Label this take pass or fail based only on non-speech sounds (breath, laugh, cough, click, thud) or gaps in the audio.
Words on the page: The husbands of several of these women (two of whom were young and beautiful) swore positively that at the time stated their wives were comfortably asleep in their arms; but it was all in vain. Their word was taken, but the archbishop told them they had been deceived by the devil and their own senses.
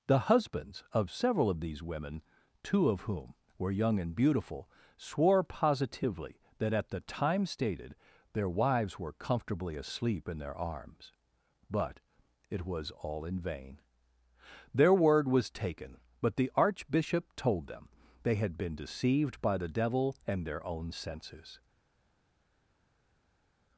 pass